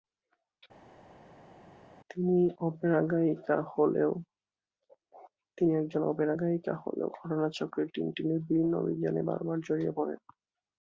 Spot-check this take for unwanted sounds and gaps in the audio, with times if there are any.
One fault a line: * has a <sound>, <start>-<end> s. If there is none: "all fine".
all fine